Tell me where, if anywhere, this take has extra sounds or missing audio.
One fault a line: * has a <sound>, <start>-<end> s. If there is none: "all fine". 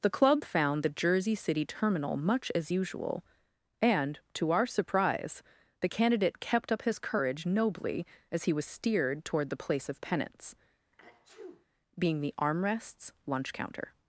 * has a sneeze, 10.9-11.7 s